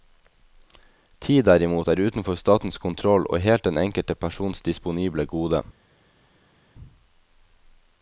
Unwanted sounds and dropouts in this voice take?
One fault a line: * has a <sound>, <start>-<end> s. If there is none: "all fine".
all fine